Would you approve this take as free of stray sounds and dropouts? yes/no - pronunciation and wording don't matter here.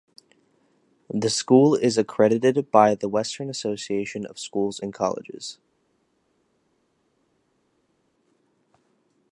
yes